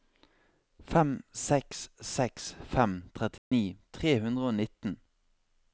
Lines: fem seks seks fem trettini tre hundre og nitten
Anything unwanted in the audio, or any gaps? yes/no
yes